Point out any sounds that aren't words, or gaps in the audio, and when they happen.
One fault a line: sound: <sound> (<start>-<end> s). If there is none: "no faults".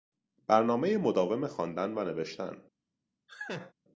sound: laugh (3.3-3.7 s)